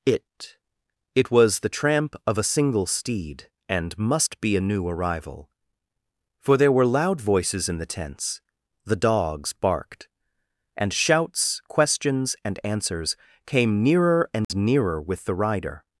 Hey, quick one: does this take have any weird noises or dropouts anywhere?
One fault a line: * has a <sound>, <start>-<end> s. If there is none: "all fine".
* has a dropout, 14.4-14.5 s